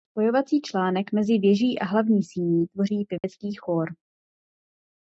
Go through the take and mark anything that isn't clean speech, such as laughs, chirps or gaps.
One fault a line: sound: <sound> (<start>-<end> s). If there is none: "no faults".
sound: dropout (3.2-3.2 s)